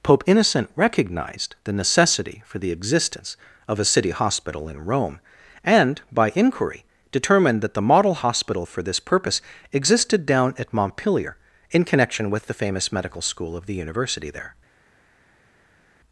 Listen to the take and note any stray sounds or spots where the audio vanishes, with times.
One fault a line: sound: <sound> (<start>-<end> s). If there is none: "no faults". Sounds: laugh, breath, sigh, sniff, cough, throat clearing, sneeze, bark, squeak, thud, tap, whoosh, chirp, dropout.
no faults